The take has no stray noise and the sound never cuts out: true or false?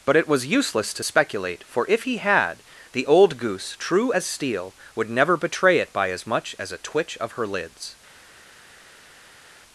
true